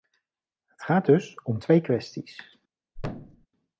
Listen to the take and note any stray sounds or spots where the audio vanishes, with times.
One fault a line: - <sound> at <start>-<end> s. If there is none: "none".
- thud at 3.0-3.5 s